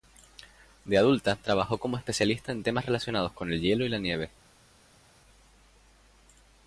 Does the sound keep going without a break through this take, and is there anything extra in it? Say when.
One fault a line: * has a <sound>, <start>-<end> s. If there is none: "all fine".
all fine